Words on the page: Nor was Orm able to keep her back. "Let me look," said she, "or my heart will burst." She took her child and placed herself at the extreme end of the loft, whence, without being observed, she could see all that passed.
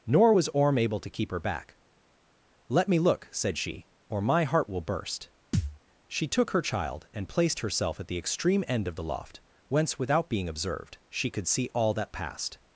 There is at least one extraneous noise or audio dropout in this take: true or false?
true